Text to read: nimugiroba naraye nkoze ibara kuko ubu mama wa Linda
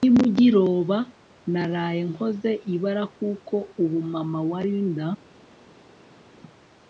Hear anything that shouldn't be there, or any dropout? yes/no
no